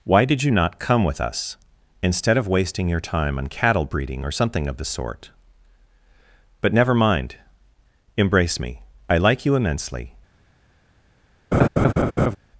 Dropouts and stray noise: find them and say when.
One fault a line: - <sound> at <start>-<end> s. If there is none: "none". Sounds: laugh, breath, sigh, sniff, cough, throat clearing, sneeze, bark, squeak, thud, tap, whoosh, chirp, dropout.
- laugh at 11.5-12.4 s